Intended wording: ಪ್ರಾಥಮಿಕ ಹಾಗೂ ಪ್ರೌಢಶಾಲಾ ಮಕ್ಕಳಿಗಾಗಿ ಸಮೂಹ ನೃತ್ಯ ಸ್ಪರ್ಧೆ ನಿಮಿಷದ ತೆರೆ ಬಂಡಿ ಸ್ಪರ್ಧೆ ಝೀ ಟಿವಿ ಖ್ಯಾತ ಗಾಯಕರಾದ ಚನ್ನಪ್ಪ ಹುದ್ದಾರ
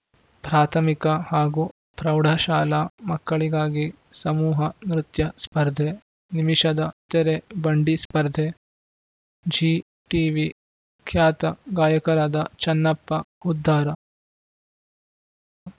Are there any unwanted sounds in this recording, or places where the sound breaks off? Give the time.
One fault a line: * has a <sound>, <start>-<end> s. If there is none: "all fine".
all fine